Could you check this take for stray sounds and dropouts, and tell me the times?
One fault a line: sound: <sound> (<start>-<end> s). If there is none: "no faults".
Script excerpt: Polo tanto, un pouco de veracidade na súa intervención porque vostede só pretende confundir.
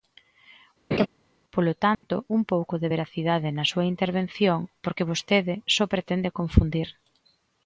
sound: laugh (0.9-1.1 s)
sound: dropout (1.9-2.0 s)